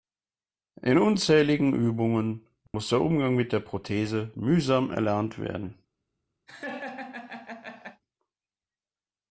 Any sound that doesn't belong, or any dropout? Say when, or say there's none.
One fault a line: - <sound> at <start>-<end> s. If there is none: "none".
- dropout at 2.7-2.7 s
- laugh at 6.5-8.0 s